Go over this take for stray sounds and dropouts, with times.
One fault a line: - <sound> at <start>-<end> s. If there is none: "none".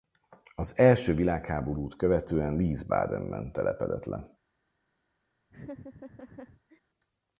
- laugh at 5.5-6.8 s